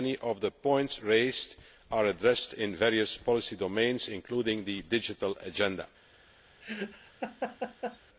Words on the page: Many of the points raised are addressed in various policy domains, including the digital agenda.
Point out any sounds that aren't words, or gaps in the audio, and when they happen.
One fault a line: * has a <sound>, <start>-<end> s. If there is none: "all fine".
* has a laugh, 6.6-8.0 s